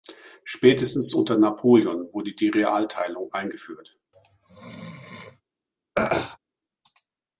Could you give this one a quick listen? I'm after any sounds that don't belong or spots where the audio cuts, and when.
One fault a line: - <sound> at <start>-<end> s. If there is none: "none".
- sneeze at 4.1-5.4 s
- throat clearing at 6.0-6.4 s